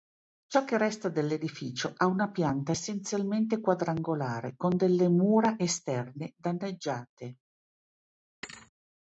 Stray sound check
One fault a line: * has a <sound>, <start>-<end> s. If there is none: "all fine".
* has a thud, 8.4-8.7 s